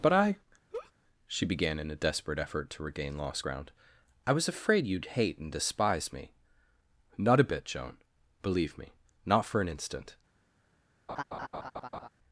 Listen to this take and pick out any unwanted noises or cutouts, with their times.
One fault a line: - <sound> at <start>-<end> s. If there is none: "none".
- laugh at 0.7-0.9 s
- laugh at 11.1-12.1 s